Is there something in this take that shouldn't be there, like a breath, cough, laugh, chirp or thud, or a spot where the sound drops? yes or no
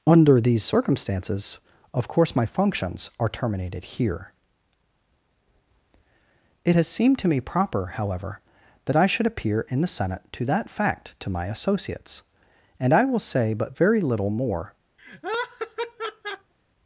yes